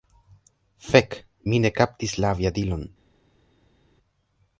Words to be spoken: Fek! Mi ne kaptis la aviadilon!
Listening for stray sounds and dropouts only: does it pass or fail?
pass